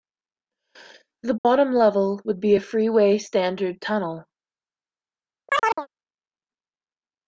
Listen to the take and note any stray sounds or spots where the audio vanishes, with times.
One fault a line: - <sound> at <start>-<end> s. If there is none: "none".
- dropout at 1.4-1.4 s
- chirp at 5.5-5.9 s